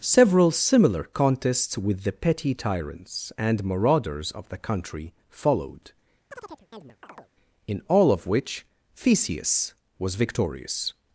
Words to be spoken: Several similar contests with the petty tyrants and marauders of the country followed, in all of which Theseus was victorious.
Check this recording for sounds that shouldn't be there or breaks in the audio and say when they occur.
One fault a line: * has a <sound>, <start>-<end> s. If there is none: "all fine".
* has a chirp, 6.3-7.3 s